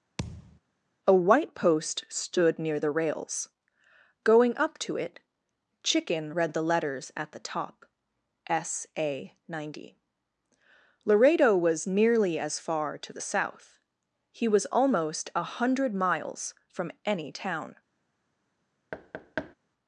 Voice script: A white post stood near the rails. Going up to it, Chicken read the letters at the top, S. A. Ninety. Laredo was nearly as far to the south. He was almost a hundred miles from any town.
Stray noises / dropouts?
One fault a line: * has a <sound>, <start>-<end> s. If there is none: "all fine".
* has a thud, 0.2-0.6 s
* has a thud, 18.9-19.5 s